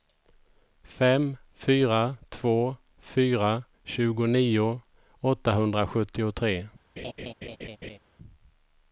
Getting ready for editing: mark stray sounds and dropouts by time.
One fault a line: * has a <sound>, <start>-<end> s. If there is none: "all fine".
* has a laugh, 7.0-8.0 s